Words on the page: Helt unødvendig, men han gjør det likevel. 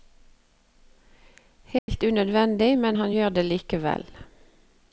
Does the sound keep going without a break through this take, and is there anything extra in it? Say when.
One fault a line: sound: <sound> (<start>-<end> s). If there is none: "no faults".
sound: dropout (1.8-1.9 s)